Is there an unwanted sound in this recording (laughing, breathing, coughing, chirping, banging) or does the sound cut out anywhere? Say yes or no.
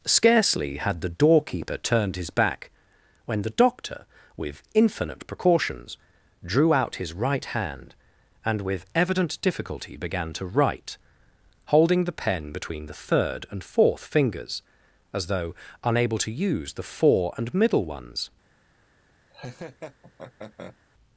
yes